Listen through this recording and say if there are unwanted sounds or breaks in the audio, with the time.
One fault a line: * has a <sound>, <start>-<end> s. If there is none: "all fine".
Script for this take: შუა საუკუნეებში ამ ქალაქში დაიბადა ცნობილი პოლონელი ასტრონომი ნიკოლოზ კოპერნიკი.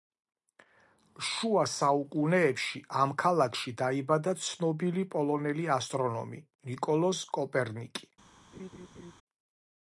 * has a laugh, 8.5-9.1 s